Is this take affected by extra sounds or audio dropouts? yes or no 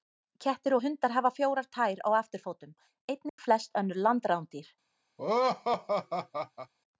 yes